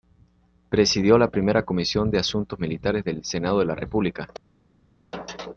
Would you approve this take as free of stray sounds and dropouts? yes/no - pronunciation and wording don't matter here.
yes